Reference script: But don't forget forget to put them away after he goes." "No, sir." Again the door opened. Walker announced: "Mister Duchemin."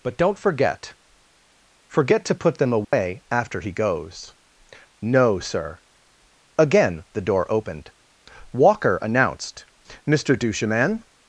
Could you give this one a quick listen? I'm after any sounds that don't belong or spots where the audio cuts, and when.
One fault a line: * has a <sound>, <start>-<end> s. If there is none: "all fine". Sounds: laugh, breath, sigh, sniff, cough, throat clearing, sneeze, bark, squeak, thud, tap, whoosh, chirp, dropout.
* has a dropout, 2.8-2.9 s